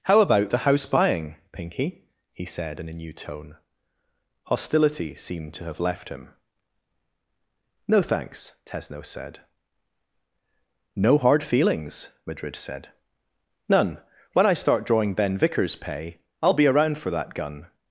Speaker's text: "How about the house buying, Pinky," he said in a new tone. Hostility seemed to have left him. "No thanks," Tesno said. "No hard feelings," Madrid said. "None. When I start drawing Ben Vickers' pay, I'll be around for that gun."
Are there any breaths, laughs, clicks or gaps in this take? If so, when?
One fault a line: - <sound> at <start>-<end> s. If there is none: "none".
none